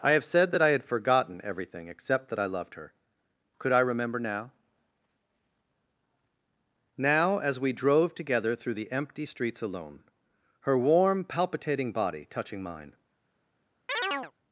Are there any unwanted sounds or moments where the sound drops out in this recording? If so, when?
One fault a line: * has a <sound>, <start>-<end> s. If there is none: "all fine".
* has a chirp, 13.9-14.3 s